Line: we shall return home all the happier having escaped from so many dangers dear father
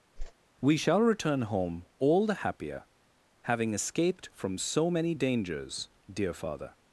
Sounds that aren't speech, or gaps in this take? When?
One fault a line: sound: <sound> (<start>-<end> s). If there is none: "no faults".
sound: whoosh (0.2-0.3 s)